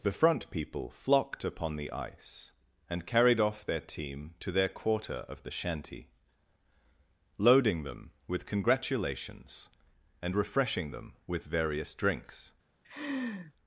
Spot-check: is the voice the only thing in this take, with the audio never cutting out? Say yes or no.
no